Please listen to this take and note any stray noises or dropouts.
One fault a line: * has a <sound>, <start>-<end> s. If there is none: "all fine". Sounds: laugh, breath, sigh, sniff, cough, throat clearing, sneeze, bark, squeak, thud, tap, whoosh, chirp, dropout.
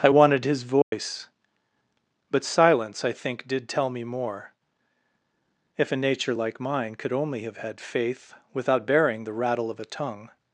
* has a dropout, 0.8-0.9 s